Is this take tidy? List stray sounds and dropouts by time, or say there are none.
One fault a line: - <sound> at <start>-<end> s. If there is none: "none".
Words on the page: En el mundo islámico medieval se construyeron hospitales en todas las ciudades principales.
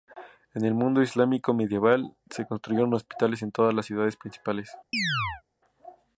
- chirp at 4.9-5.4 s